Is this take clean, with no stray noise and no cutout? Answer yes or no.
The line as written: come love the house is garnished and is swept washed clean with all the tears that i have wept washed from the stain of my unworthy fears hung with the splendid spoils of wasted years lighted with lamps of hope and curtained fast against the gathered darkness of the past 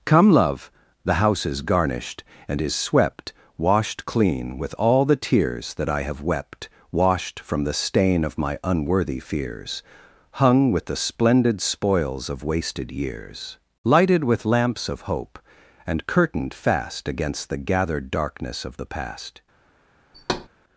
no